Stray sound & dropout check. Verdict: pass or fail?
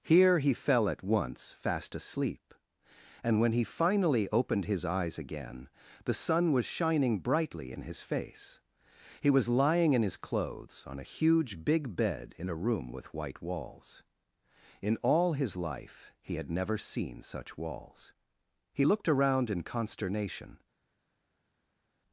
pass